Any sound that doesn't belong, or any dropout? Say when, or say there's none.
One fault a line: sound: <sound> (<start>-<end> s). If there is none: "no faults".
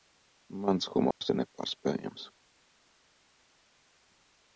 sound: dropout (1.1-1.2 s)